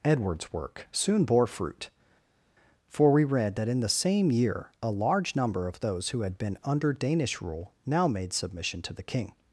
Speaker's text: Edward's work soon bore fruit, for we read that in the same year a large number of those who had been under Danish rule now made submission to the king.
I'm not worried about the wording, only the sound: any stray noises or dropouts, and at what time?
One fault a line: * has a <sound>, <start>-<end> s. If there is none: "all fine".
all fine